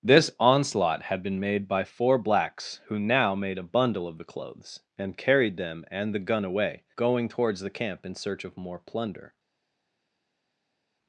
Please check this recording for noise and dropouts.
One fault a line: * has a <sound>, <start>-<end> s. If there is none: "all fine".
all fine